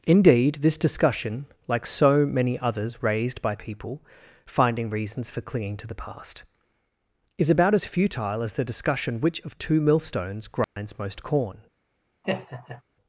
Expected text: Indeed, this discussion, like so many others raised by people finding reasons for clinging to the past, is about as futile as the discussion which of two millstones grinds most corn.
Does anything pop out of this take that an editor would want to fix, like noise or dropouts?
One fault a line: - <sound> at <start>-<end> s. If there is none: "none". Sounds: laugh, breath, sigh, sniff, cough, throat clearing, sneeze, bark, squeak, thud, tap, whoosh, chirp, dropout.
- dropout at 10.6-10.8 s
- laugh at 12.2-12.8 s